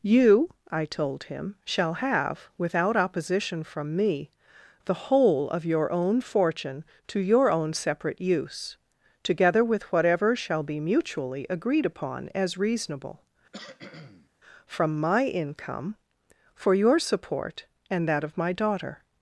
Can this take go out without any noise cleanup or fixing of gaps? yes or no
no